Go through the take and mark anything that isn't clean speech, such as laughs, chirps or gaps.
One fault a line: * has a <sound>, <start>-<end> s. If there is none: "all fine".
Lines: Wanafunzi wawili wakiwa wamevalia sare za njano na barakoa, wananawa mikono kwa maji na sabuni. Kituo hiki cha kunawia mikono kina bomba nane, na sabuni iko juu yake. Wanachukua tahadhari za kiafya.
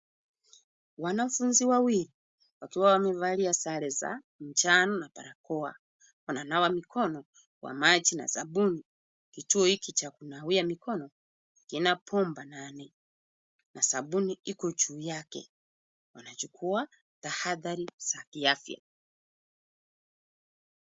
all fine